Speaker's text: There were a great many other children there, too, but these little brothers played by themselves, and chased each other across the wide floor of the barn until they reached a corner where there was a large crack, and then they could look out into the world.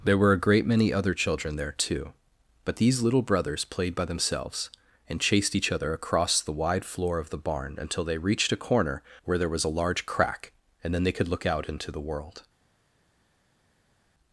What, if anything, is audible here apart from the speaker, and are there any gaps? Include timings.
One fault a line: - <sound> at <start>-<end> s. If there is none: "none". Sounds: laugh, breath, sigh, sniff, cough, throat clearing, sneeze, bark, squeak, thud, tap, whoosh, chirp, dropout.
none